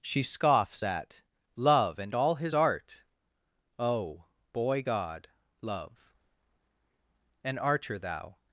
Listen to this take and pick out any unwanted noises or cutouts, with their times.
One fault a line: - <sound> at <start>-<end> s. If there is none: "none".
none